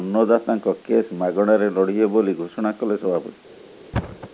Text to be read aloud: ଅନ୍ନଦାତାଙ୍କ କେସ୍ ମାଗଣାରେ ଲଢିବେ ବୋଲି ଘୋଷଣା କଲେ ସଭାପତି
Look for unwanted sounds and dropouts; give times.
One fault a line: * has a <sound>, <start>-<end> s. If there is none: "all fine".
* has a thud, 3.9-4.3 s